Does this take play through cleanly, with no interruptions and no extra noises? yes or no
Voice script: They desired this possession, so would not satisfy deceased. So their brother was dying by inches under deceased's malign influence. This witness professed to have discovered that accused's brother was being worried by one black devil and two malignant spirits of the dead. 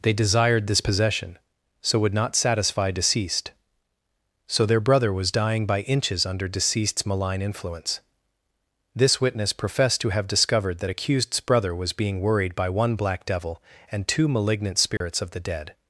no